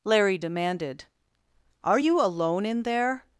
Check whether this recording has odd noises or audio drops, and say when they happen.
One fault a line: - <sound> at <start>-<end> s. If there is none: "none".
none